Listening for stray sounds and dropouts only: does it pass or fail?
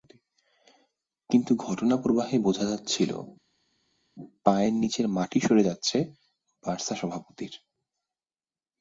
pass